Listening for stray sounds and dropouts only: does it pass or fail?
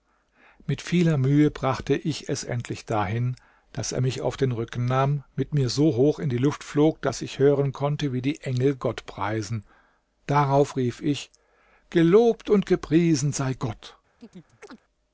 fail